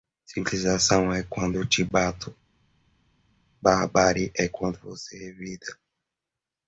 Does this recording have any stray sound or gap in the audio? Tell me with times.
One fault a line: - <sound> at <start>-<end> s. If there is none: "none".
none